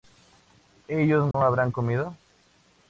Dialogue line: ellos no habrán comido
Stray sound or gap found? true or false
true